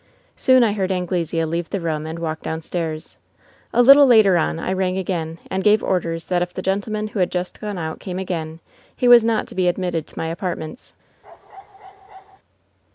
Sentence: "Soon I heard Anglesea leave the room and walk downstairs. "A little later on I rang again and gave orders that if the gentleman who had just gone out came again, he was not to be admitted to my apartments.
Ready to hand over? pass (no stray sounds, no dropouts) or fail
fail